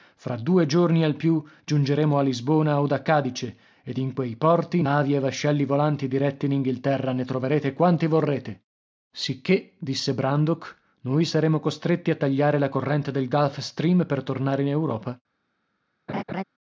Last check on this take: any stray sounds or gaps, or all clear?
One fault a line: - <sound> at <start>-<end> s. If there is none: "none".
- laugh at 16.1-16.4 s